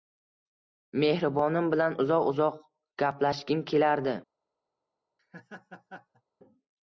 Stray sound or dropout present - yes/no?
yes